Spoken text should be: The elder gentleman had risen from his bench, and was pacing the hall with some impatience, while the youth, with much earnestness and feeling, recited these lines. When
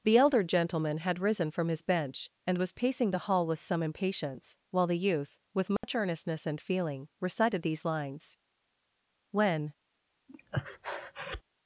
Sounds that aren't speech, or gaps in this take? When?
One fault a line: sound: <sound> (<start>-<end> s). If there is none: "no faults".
sound: dropout (5.8-5.8 s)
sound: breath (10.3-11.4 s)